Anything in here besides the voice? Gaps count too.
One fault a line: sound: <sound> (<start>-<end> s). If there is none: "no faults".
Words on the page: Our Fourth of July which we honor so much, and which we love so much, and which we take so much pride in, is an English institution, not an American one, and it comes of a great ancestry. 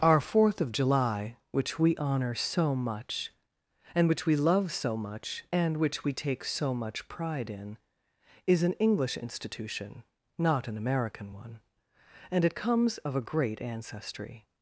no faults